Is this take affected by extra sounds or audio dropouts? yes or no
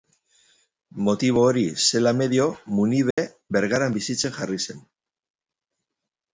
yes